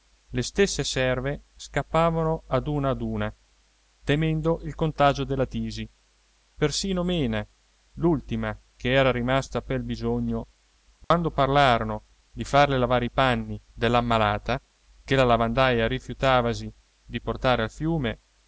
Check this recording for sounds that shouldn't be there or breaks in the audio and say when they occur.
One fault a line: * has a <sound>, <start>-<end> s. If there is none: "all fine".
* has a dropout, 11.0-11.1 s